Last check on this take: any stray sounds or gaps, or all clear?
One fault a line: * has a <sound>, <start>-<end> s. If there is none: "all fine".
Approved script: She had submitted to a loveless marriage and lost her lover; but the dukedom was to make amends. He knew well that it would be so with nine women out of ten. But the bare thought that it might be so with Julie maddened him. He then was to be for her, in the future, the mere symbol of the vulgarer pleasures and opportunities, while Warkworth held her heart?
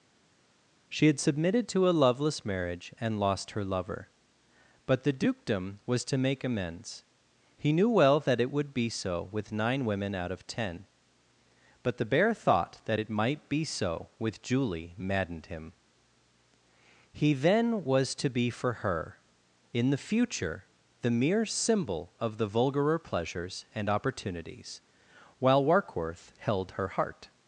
all fine